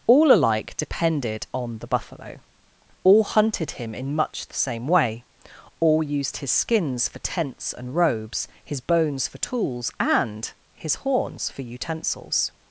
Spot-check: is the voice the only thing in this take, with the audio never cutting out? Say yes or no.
yes